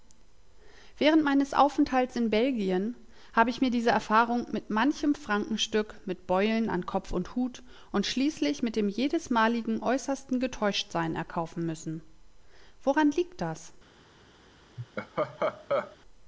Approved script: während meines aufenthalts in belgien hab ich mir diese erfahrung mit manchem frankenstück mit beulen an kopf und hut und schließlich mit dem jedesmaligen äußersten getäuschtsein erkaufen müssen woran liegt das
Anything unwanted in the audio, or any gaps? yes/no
yes